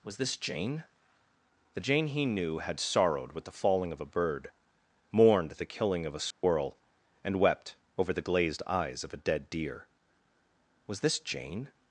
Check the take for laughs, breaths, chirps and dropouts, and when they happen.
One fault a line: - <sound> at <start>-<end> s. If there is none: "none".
- dropout at 6.3-6.4 s